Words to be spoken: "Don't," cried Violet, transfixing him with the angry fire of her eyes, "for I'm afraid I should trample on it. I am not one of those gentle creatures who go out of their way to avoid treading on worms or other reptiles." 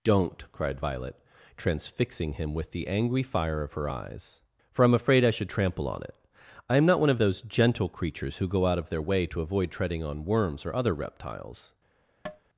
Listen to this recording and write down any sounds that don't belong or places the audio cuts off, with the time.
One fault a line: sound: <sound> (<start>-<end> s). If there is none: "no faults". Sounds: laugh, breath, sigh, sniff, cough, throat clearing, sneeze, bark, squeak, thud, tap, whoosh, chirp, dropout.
sound: tap (12.3-12.4 s)